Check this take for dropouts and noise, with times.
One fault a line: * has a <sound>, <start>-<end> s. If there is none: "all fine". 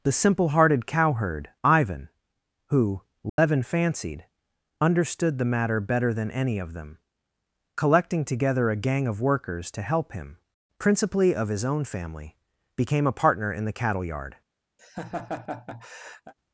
* has a dropout, 3.3-3.4 s
* has a laugh, 14.8-16.3 s